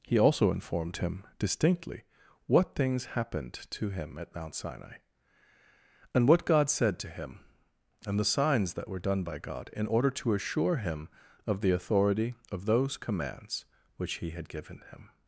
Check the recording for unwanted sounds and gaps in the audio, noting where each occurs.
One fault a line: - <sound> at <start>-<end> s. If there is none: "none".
none